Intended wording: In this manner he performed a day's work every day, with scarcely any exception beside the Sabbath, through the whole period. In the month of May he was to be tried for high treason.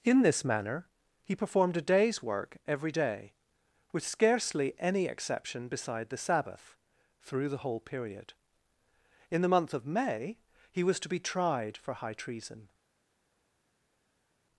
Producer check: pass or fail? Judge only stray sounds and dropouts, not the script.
pass